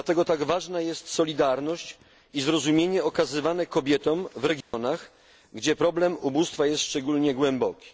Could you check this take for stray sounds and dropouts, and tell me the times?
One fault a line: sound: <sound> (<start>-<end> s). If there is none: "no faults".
sound: dropout (4.6-4.7 s)